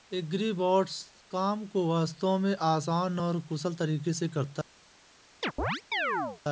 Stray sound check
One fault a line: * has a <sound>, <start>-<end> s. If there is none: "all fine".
* has a chirp, 5.4-6.4 s